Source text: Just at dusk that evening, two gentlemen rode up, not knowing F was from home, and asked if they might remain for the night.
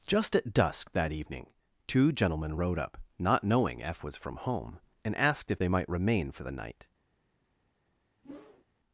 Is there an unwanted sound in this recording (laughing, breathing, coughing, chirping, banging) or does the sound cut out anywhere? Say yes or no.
yes